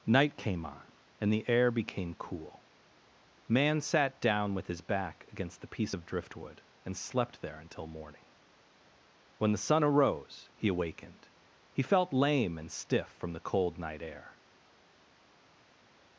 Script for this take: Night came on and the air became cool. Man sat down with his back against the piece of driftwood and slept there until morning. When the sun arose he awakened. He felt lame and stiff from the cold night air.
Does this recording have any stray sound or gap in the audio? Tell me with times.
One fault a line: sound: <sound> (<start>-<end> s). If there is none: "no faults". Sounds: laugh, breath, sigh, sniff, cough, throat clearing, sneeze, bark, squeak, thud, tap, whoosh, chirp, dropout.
no faults